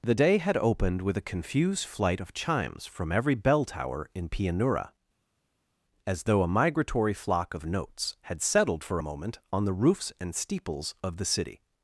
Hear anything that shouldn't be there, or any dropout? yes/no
no